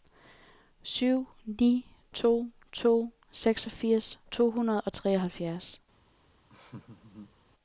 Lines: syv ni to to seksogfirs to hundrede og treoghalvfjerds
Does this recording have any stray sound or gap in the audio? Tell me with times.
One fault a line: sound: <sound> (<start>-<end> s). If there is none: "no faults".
sound: laugh (6.5-7.4 s)